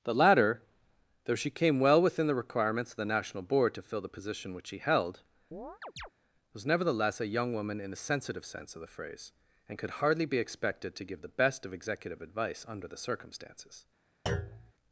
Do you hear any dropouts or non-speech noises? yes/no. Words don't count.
yes